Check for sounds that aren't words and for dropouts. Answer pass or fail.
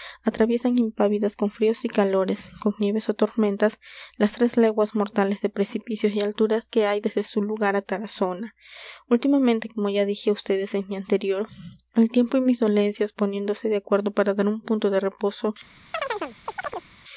fail